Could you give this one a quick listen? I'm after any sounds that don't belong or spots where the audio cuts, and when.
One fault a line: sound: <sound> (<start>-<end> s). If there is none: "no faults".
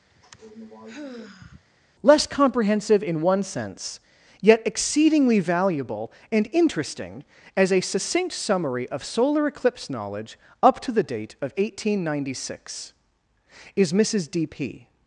sound: sigh (0.1-1.6 s)